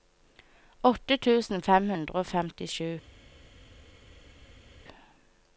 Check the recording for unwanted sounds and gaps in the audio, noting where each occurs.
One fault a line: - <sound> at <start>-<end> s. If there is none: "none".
none